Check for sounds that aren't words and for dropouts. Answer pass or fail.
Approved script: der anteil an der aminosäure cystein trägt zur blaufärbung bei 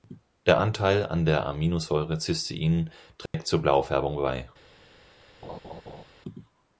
fail